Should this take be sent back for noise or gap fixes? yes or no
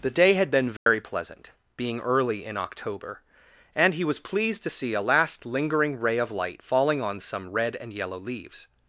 yes